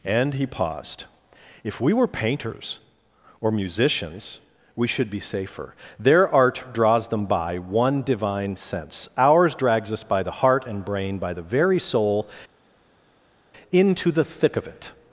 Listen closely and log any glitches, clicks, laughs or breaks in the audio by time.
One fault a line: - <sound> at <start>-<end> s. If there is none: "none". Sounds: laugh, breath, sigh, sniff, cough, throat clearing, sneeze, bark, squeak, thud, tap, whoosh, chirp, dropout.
none